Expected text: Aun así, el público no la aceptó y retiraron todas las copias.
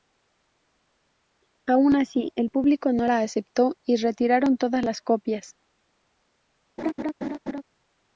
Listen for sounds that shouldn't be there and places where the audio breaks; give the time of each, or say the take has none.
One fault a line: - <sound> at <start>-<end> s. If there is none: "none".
- laugh at 6.8-7.6 s